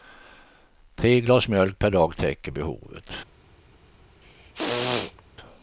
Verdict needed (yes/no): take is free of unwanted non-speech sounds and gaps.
no